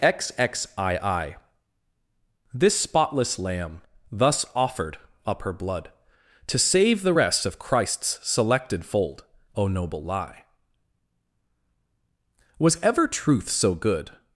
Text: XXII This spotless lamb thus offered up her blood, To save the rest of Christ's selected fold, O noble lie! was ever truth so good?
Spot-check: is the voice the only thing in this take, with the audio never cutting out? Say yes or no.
yes